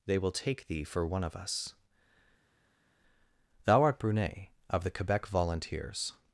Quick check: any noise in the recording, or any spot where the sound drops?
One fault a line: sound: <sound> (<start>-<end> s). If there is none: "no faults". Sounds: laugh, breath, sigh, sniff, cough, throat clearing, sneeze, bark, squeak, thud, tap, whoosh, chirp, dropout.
no faults